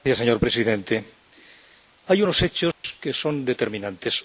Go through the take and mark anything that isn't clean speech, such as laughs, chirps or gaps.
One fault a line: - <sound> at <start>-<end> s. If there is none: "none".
- dropout at 2.7-2.8 s